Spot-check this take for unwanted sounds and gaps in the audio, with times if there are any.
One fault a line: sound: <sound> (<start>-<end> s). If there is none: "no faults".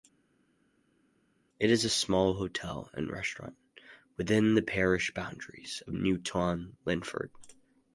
no faults